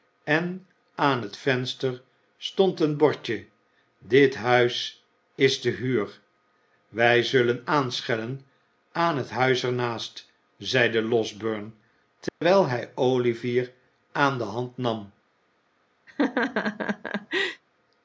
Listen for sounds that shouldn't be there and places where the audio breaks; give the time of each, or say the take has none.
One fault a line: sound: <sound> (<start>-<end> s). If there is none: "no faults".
sound: dropout (12.3-12.4 s)
sound: laugh (16.1-17.6 s)